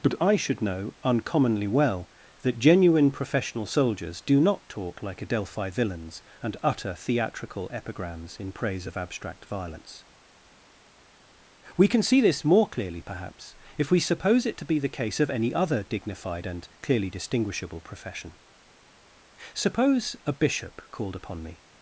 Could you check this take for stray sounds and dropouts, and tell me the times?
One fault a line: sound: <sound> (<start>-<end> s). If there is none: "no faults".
no faults